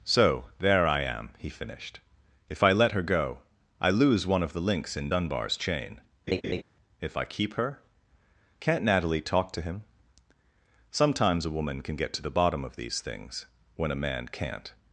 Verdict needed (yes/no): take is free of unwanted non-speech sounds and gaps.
no